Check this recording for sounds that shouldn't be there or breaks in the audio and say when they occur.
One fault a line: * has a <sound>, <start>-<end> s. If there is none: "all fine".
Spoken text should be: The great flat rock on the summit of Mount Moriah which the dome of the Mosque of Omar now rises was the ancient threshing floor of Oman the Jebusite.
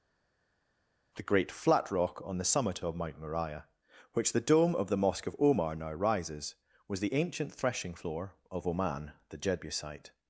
all fine